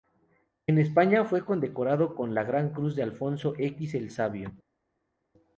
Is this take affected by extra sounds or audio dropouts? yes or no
no